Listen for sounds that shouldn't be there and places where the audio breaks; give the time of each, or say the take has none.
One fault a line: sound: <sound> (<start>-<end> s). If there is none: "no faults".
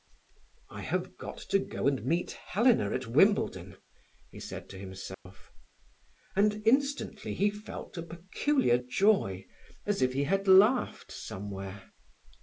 sound: dropout (5.1-5.3 s)